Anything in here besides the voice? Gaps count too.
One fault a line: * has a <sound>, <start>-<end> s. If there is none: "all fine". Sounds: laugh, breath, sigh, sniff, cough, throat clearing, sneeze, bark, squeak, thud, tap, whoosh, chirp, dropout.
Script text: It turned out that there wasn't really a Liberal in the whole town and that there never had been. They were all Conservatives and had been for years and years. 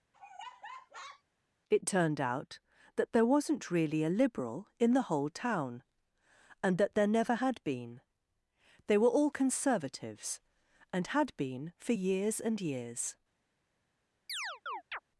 * has a laugh, 0.1-1.2 s
* has a chirp, 14.3-15.0 s